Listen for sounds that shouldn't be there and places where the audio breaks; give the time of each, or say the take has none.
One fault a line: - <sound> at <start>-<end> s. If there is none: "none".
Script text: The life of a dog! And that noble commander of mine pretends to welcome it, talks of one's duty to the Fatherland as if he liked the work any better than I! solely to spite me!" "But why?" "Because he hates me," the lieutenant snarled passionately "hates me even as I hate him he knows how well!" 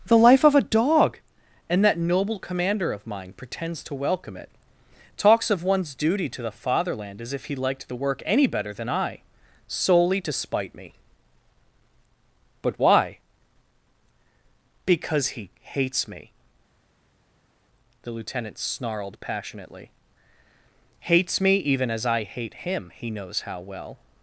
none